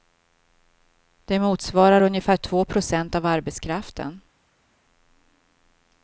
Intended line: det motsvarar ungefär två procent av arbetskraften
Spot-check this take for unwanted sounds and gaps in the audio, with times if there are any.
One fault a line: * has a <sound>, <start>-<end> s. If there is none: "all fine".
all fine